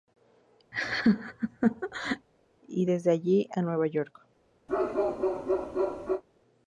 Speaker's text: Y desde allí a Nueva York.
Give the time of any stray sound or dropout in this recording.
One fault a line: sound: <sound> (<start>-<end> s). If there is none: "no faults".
sound: laugh (0.7-2.3 s)
sound: bark (4.7-6.2 s)